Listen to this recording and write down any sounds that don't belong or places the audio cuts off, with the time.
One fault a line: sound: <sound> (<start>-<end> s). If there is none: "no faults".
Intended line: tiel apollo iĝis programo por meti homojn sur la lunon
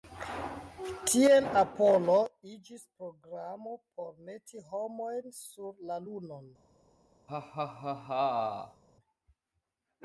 sound: laugh (7.3-8.8 s)